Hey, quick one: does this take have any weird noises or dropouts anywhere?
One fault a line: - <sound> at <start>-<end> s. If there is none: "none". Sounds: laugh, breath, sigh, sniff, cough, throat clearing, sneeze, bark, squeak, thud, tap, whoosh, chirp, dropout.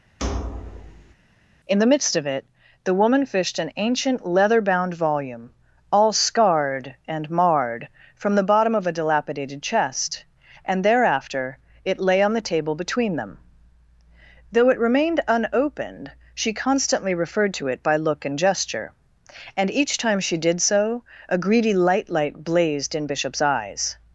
- thud at 0.2-1.1 s